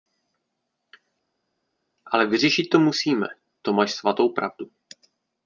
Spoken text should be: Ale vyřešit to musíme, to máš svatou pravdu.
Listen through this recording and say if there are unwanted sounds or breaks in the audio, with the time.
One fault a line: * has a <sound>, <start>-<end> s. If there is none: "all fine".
all fine